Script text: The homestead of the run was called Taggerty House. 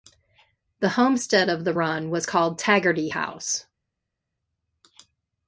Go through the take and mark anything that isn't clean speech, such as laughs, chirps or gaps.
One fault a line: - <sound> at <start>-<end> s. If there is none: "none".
none